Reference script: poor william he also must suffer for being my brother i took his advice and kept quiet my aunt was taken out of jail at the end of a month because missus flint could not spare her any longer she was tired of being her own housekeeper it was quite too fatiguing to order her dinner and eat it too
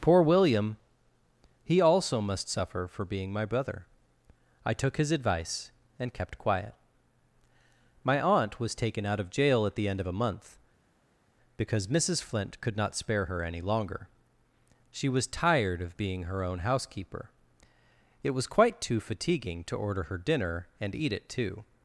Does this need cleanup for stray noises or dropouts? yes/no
no